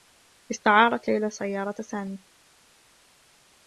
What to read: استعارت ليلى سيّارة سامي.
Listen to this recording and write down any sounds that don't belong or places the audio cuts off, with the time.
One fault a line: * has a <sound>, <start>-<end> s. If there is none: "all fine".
all fine